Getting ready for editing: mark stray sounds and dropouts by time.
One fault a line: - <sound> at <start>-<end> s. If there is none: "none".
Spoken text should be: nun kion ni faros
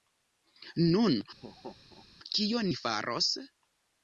- laugh at 1.4-2.1 s